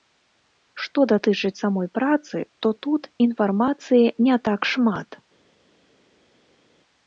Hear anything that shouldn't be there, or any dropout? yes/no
no